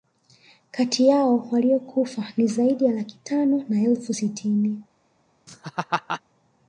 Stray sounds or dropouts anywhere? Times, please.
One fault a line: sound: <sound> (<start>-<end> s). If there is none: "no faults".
sound: laugh (5.5-6.2 s)